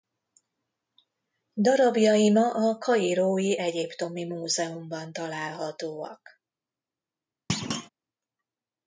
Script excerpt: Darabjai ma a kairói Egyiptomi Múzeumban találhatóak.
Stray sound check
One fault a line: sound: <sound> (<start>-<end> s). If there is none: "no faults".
sound: thud (7.5-7.9 s)